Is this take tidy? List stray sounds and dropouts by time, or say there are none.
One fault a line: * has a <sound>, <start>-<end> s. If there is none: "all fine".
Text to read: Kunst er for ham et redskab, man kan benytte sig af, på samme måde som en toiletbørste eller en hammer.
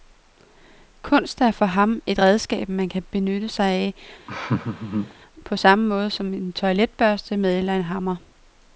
* has a laugh, 4.3-5.1 s